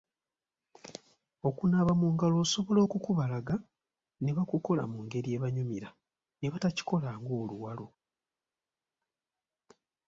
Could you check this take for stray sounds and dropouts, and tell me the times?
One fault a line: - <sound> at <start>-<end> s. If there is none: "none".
none